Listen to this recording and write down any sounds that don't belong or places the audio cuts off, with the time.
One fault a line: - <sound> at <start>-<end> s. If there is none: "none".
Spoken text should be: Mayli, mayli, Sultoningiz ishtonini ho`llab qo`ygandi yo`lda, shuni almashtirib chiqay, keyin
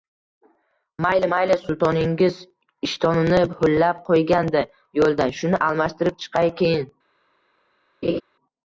- laugh at 8.0-8.2 s